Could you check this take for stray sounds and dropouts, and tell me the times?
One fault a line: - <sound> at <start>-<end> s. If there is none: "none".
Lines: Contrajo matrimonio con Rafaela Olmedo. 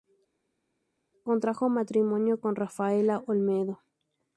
none